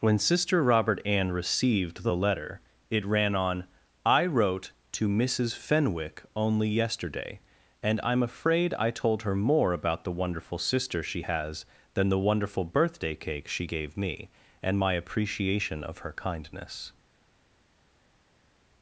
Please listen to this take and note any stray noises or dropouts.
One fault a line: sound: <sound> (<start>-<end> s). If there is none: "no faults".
no faults